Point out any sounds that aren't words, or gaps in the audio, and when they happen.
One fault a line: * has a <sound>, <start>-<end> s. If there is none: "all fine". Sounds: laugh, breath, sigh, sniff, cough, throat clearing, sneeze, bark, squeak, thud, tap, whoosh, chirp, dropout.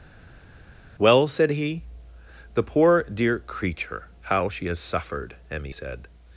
all fine